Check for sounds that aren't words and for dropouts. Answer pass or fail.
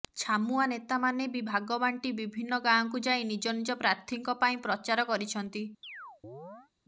fail